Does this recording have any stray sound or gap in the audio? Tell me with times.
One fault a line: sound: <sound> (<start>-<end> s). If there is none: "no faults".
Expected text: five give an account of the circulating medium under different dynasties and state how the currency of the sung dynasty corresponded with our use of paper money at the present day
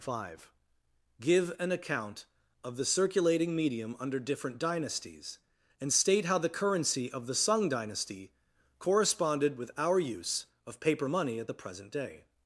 no faults